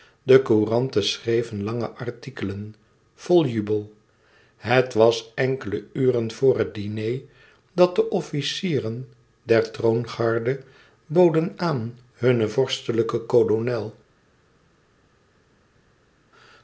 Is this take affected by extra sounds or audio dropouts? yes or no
no